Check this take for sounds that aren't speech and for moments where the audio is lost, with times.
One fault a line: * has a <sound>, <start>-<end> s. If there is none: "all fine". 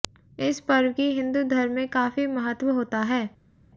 all fine